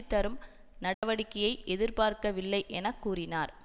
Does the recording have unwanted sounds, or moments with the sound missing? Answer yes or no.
yes